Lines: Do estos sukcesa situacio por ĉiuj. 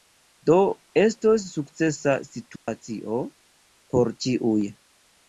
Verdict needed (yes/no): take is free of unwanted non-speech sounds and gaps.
no